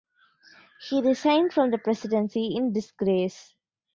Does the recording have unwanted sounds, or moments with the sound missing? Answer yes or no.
no